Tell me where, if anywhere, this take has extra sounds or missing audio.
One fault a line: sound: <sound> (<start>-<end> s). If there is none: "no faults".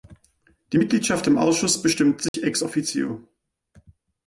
sound: dropout (2.3-2.3 s)